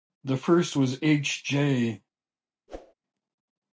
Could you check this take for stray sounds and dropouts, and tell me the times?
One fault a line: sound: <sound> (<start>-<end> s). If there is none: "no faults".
sound: whoosh (2.7-2.9 s)